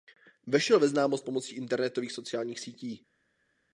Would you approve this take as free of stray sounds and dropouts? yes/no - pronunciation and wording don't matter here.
yes